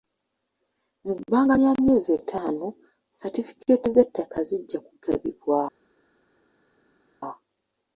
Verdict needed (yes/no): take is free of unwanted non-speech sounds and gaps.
yes